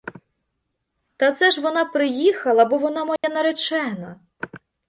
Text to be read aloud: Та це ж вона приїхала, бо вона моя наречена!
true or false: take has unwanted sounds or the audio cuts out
true